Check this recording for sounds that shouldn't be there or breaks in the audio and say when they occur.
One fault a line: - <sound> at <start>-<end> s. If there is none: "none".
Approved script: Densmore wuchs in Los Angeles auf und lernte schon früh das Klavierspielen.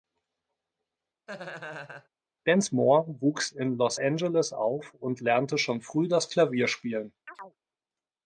- laugh at 1.3-2.1 s
- chirp at 7.3-7.6 s